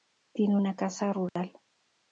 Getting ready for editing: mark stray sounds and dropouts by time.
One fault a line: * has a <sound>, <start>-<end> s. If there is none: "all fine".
* has a dropout, 1.3-1.4 s